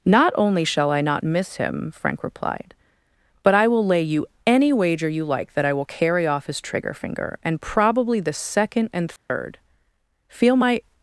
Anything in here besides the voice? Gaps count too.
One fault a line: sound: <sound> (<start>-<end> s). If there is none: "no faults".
sound: dropout (9.2-9.3 s)